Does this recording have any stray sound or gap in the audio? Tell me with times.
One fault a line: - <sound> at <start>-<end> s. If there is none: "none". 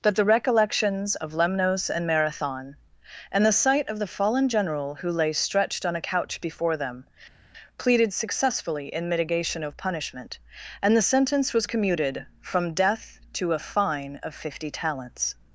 none